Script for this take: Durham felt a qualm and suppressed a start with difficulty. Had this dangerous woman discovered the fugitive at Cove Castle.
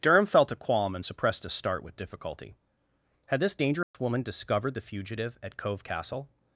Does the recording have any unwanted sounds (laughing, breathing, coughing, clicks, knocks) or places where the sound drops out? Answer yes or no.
yes